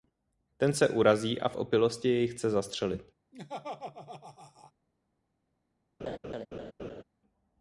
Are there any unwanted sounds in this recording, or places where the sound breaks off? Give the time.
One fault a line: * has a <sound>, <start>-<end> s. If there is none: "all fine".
* has a laugh, 3.3-4.7 s
* has a laugh, 6.0-7.0 s